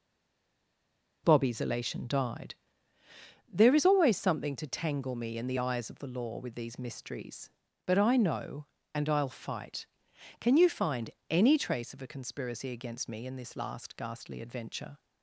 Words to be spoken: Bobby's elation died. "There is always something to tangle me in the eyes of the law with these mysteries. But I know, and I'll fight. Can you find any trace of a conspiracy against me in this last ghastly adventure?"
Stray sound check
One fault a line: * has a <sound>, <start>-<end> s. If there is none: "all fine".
all fine